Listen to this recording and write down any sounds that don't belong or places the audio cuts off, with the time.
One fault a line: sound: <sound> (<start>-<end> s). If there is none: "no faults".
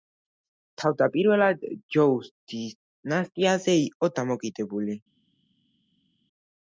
no faults